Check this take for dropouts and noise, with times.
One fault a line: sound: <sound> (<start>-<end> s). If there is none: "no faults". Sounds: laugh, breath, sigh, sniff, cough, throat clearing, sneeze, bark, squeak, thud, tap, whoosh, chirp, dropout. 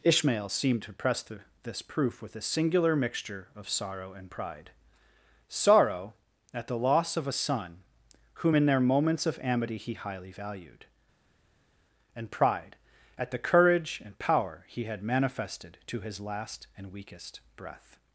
no faults